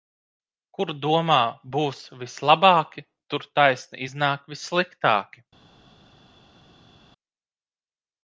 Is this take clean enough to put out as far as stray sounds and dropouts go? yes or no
yes